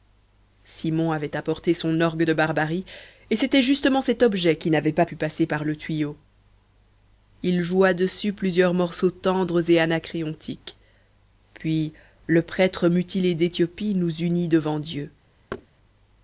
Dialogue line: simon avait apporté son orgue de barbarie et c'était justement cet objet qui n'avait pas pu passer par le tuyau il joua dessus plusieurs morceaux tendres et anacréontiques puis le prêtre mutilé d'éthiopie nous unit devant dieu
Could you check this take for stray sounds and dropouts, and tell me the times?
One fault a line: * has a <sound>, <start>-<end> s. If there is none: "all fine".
* has a thud, 15.5-15.7 s